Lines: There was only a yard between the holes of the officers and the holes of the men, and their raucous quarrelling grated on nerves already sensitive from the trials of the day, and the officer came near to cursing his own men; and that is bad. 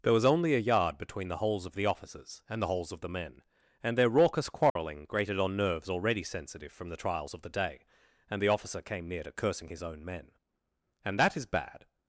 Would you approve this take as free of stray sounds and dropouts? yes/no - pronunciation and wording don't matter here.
no